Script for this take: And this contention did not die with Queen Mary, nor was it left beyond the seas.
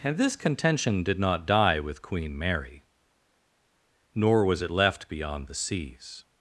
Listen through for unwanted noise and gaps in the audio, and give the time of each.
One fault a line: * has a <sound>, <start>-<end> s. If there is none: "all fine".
all fine